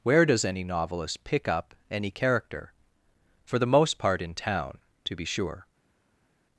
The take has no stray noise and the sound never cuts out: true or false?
true